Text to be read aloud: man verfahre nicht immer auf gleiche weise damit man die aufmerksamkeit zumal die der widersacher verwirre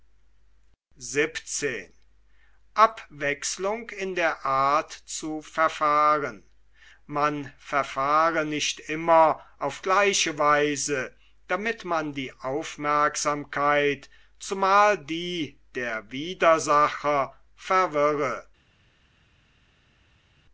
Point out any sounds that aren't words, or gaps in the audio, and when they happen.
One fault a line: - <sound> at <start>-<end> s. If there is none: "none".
none